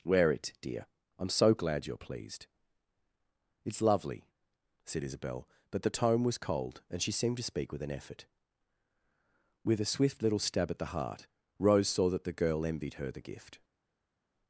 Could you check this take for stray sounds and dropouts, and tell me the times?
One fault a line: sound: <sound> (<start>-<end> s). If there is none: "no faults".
no faults